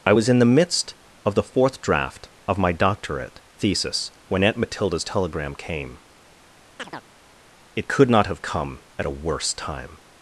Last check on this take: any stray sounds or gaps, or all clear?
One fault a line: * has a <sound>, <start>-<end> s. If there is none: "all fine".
* has a chirp, 6.8-7.0 s